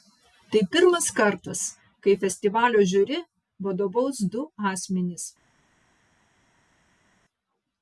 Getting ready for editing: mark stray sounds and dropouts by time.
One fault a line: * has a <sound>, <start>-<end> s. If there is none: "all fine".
all fine